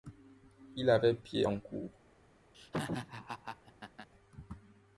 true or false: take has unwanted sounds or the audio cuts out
true